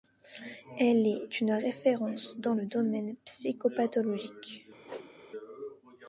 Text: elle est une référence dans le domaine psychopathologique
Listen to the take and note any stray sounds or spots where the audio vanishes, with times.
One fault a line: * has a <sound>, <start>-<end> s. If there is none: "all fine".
* has a whoosh, 4.8-5.1 s